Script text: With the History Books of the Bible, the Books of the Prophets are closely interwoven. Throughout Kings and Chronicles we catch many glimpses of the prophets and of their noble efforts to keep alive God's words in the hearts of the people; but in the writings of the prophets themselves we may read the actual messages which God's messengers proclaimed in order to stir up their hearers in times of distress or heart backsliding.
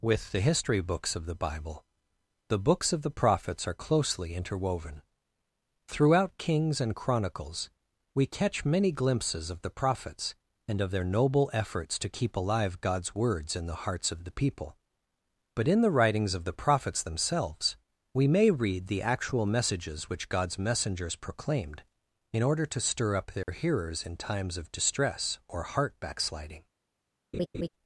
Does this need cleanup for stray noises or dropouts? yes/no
yes